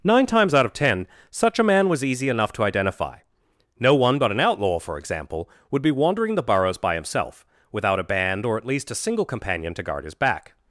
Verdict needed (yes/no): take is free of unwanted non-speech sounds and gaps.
yes